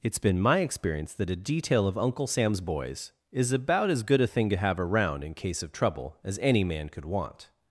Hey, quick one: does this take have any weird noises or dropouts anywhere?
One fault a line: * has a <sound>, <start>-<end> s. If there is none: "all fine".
all fine